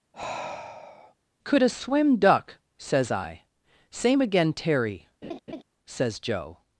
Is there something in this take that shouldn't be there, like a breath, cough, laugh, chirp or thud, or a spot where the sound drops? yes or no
yes